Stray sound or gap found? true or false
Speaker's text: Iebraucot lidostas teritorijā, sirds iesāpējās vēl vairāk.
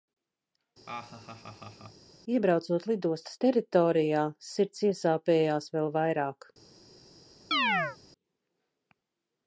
true